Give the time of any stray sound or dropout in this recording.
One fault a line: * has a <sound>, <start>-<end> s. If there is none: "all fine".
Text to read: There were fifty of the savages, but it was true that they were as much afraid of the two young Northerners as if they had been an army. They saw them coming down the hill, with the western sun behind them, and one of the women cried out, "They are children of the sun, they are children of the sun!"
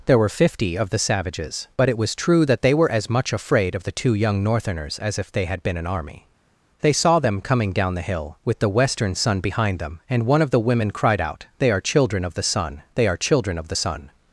all fine